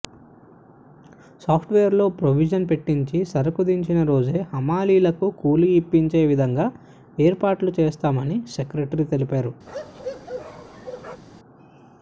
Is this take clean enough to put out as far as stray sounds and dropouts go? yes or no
no